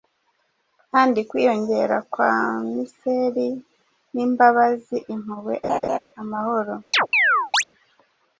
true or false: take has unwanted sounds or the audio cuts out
true